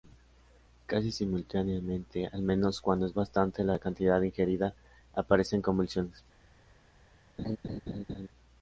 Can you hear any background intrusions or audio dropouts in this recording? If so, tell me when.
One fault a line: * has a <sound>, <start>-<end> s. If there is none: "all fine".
* has a laugh, 7.4-8.3 s